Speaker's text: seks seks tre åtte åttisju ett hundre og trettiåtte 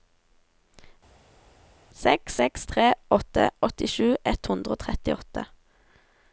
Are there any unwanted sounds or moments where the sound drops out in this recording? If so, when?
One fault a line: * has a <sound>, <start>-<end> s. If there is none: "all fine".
all fine